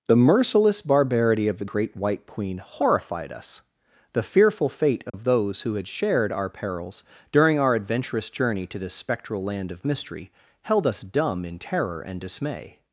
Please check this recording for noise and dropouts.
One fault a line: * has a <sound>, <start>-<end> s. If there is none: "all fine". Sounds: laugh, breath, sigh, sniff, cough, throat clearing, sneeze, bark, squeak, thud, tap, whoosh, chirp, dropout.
* has a dropout, 5.1-5.1 s